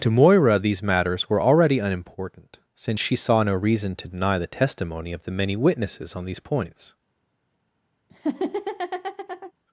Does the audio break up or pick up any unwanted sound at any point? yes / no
yes